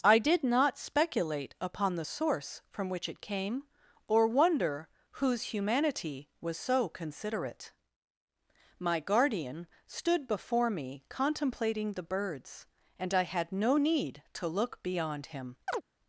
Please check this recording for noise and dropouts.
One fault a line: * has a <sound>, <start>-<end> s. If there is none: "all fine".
* has a chirp, 15.7-15.8 s